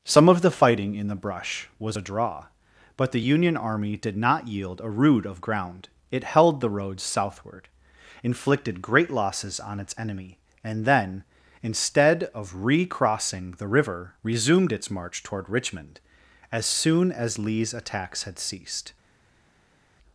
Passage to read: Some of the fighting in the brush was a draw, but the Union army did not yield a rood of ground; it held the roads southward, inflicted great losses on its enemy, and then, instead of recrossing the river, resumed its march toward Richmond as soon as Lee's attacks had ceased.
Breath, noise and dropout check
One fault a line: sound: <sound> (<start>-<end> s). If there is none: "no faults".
no faults